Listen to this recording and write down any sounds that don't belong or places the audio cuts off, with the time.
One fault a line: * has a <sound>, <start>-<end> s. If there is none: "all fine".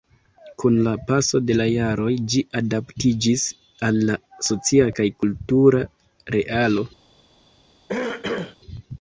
* has a throat clearing, 7.9-8.6 s